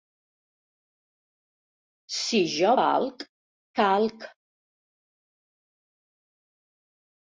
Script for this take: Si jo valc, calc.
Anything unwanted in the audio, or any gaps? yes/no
no